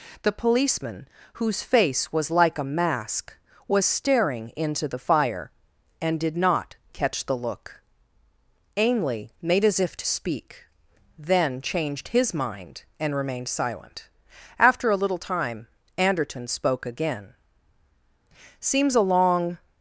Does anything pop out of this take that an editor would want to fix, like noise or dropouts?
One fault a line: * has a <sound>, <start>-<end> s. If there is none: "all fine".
all fine